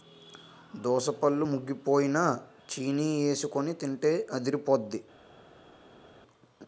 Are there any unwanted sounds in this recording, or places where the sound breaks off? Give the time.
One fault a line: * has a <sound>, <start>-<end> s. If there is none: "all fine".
all fine